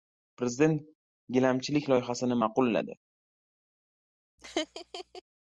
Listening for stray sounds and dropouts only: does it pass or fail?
fail